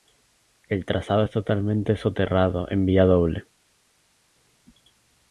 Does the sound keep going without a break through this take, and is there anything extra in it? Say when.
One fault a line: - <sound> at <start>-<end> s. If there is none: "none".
none